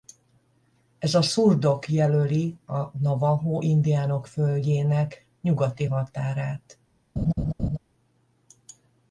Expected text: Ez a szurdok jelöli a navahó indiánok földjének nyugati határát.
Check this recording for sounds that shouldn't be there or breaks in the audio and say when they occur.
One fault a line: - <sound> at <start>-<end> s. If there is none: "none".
- laugh at 7.2-7.8 s